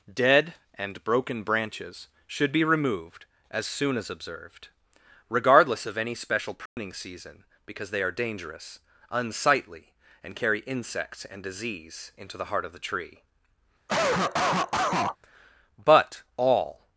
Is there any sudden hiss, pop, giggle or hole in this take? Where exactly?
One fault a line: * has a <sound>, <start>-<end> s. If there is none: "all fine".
* has a dropout, 6.7-6.8 s
* has a cough, 13.9-15.2 s